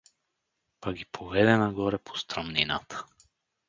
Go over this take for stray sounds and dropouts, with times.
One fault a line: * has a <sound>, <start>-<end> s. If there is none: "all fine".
all fine